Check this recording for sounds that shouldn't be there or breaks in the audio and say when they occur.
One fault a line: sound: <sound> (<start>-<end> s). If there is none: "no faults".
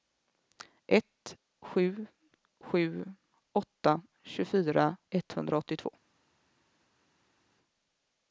no faults